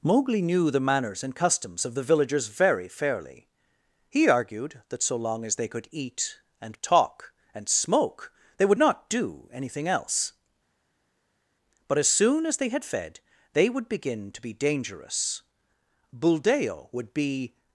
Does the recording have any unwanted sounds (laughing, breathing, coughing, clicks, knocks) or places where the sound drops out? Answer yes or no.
no